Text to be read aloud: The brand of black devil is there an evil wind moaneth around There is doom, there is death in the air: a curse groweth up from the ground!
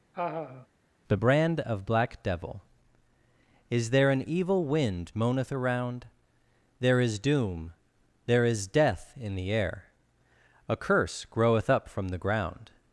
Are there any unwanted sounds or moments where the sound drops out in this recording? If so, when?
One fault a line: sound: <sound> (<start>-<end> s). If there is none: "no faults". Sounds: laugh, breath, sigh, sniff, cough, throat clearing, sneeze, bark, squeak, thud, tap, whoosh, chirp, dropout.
sound: laugh (0.1-0.7 s)